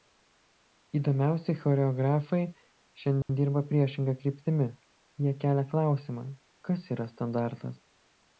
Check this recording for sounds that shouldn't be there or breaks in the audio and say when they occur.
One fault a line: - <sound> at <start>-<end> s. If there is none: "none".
- dropout at 3.2-3.3 s